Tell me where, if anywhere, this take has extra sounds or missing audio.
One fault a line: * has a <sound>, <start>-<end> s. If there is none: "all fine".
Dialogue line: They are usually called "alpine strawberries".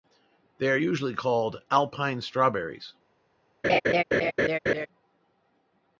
* has a laugh, 3.6-4.9 s